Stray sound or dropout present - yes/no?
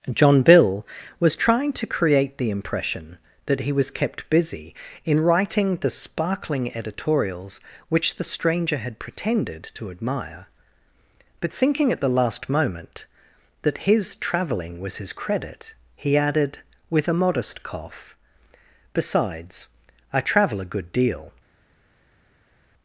no